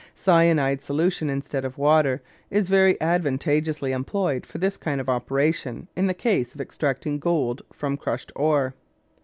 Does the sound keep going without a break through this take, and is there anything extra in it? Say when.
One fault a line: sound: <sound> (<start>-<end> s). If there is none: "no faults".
no faults